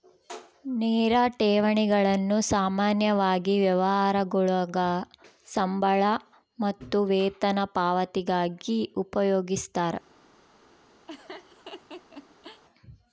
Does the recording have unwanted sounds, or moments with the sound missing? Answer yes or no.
yes